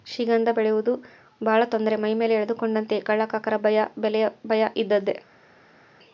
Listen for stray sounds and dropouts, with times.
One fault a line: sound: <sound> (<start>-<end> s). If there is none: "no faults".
no faults